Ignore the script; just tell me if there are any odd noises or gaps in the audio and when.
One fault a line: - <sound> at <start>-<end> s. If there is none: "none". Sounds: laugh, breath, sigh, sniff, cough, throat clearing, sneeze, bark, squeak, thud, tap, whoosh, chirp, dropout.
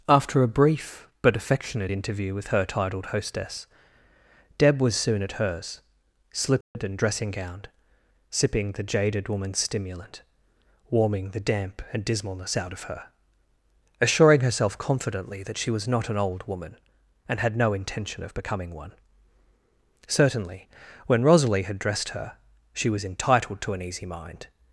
- dropout at 6.6-6.8 s